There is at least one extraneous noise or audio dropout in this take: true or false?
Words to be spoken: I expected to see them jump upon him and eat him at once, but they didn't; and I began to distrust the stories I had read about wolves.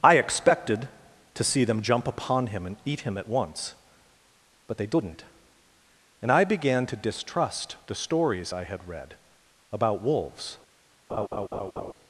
true